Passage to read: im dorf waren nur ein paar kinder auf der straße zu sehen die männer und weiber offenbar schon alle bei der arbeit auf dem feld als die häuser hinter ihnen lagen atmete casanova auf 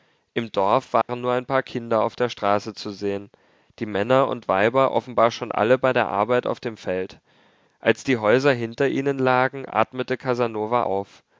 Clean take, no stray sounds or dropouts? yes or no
no